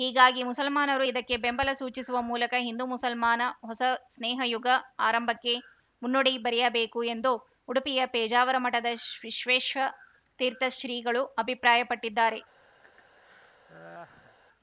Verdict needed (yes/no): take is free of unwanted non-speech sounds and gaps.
no